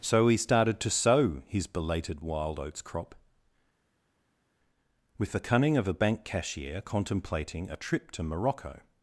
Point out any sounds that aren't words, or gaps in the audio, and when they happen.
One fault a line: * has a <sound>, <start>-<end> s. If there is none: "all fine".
all fine